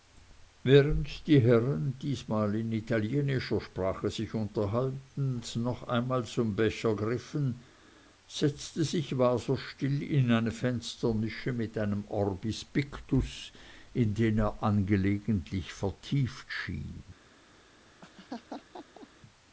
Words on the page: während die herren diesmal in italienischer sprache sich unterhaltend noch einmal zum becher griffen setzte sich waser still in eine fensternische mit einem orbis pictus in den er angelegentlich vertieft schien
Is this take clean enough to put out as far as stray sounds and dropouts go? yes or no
no